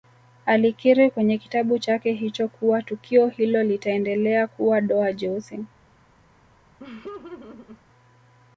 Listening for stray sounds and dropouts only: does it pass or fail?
fail